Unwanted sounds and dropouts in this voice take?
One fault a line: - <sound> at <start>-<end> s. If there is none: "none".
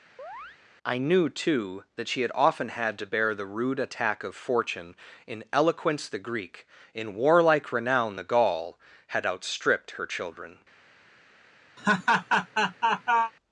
- chirp at 0.2-0.6 s
- laugh at 11.8-13.3 s